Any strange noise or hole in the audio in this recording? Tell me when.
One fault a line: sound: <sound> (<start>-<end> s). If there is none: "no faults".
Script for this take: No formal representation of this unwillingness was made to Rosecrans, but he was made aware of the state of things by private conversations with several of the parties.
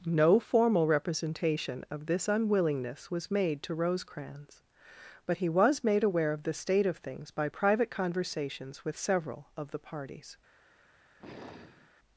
sound: sigh (11.2-11.9 s)